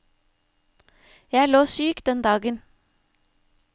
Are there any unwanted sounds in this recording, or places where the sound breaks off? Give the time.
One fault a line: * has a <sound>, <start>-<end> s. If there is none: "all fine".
all fine